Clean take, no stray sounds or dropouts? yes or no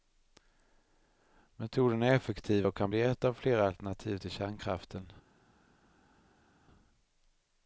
yes